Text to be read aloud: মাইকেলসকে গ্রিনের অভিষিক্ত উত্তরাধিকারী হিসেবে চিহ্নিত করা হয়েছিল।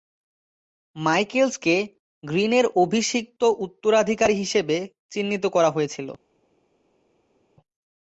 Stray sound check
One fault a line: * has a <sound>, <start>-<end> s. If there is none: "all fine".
all fine